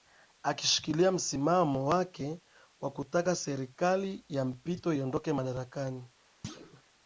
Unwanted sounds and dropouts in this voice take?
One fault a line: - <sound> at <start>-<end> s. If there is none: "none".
- thud at 6.4-6.8 s